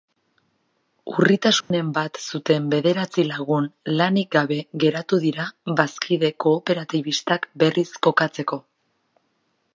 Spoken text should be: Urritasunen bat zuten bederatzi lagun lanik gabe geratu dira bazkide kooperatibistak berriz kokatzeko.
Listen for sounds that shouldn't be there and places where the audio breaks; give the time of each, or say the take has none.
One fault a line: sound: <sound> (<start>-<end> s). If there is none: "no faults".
sound: dropout (1.6-1.7 s)